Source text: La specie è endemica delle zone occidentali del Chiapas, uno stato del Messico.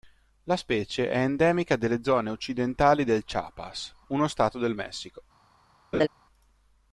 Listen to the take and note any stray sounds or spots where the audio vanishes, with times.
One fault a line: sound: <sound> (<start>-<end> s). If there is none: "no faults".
sound: laugh (5.9-6.1 s)